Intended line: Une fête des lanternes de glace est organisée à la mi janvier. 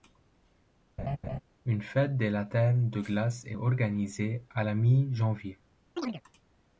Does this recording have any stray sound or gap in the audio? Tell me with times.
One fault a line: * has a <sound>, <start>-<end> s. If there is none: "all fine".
* has a laugh, 1.0-1.4 s
* has a chirp, 6.0-6.2 s